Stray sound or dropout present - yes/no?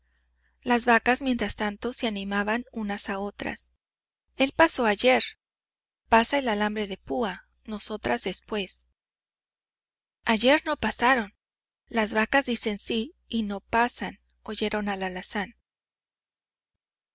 no